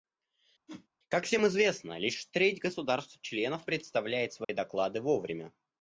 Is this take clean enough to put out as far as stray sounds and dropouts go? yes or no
no